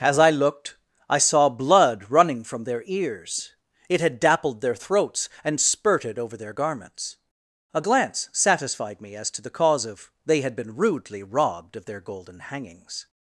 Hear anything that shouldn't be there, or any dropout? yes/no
no